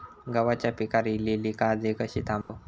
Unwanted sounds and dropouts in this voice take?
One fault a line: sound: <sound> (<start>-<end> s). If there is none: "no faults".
sound: dropout (2.4-2.5 s)